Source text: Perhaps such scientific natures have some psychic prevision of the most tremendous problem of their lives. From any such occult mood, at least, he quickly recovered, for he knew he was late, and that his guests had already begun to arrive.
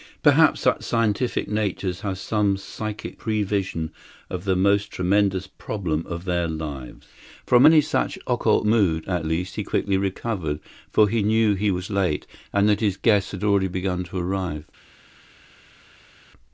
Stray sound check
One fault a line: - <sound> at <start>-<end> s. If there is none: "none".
none